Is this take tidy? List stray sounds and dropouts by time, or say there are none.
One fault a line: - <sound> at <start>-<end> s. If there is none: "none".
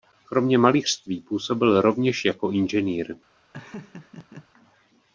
- laugh at 3.5-4.5 s